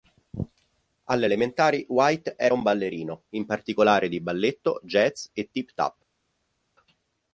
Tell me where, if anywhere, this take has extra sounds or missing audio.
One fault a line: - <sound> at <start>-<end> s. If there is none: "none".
none